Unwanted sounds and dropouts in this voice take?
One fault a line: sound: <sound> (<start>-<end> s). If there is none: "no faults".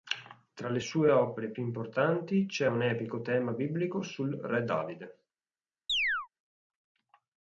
sound: chirp (5.9-6.3 s)